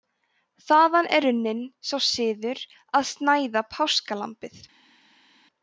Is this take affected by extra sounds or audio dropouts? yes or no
no